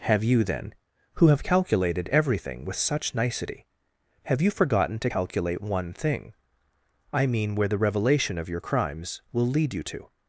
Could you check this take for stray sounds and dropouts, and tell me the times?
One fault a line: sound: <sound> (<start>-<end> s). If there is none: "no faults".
no faults